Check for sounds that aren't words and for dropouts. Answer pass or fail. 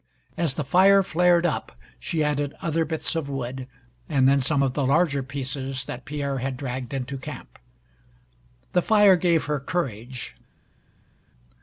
pass